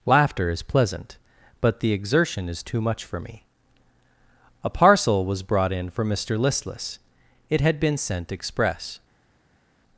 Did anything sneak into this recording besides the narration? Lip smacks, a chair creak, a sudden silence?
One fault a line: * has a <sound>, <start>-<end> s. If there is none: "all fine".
all fine